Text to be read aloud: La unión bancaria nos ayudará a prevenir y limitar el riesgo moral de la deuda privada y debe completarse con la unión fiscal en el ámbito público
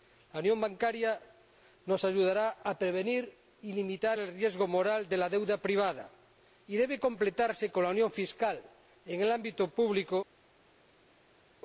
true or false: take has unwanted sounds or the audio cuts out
false